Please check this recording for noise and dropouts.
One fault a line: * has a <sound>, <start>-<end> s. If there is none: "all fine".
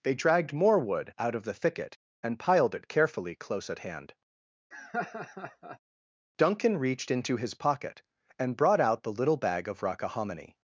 * has a laugh, 4.7-5.8 s